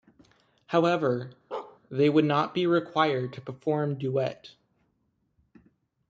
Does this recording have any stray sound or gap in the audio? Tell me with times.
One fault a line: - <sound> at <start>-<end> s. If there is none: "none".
- bark at 1.5-1.8 s